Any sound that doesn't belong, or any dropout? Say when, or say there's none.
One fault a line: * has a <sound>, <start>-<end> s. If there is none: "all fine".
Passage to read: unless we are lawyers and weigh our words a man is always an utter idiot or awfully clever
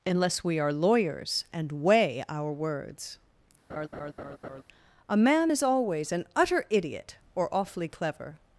* has a laugh, 3.7-4.6 s